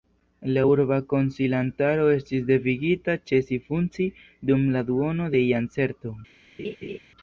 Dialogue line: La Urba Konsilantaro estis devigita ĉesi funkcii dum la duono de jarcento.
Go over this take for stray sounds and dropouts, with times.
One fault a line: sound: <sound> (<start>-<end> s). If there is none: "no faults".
sound: laugh (6.6-7.0 s)